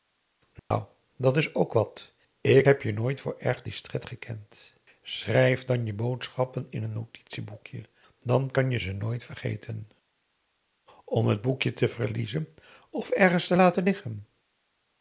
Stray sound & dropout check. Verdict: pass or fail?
fail